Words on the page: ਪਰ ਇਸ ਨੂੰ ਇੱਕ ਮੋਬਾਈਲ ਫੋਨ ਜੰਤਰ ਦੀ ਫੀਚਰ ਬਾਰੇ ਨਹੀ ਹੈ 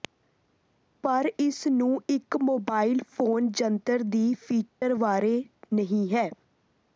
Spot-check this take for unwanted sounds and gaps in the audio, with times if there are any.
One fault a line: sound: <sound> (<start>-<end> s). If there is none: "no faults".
sound: dropout (4.7-4.8 s)